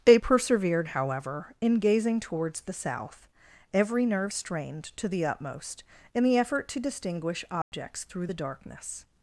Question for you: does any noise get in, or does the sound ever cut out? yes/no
yes